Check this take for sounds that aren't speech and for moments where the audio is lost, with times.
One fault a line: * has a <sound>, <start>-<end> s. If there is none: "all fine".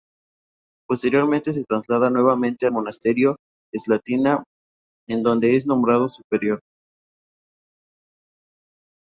all fine